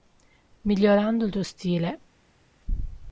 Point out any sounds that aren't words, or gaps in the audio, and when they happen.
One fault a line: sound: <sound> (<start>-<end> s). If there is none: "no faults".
no faults